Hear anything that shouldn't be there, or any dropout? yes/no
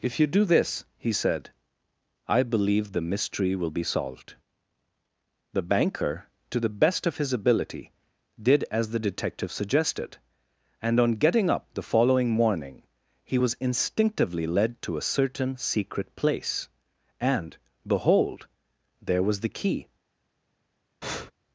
yes